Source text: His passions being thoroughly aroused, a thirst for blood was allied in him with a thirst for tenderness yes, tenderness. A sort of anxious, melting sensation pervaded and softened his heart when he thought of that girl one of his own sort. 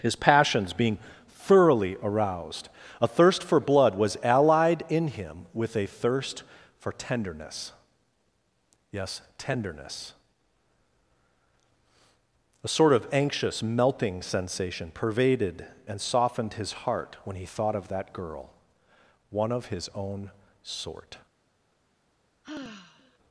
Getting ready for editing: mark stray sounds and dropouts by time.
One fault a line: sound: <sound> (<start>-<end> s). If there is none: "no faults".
sound: sigh (22.4-23.2 s)